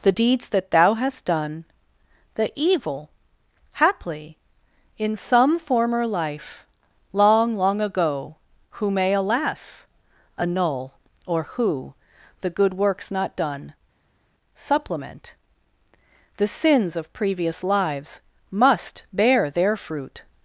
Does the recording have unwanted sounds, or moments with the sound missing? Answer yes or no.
no